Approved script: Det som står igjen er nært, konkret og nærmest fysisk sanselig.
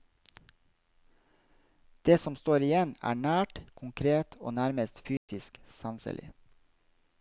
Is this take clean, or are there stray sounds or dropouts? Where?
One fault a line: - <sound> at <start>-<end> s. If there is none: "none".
- dropout at 5.2-5.3 s